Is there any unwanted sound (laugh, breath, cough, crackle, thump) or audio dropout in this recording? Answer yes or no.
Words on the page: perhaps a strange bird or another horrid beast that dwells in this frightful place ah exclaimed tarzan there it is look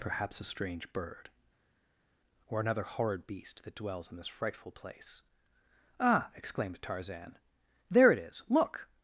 no